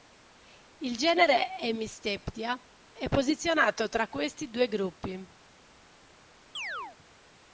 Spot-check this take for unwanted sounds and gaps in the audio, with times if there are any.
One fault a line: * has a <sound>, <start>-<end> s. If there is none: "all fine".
* has a chirp, 6.5-7.0 s